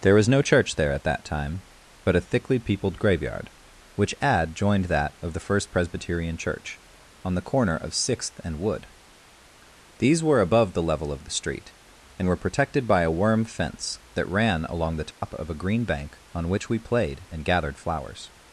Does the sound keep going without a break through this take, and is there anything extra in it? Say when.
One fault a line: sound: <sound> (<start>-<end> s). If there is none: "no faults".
sound: dropout (15.1-15.2 s)